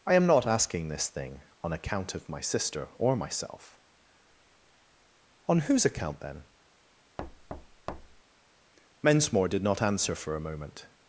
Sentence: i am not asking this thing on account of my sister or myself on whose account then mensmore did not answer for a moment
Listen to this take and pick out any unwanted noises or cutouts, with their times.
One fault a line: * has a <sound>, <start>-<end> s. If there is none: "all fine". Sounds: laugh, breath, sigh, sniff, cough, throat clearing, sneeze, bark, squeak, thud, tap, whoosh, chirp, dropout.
* has a thud, 7.2-8.2 s